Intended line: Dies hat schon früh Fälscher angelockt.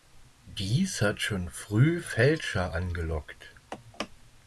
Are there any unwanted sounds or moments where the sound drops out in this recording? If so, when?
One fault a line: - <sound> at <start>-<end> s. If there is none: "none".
none